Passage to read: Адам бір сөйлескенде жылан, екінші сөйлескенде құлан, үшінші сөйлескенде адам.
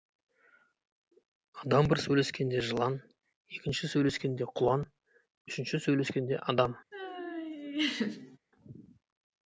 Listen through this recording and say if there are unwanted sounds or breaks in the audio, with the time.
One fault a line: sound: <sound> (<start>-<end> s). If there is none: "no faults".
sound: laugh (6.9-8.4 s)